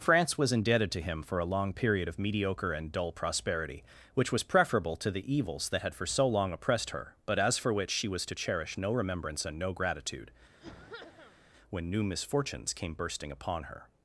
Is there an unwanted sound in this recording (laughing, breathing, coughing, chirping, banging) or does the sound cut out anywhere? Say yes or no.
yes